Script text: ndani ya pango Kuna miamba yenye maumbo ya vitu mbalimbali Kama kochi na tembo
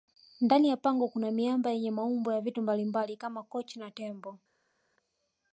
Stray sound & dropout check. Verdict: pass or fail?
pass